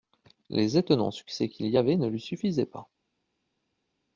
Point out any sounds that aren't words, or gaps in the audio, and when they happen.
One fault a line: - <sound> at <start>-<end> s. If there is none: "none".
none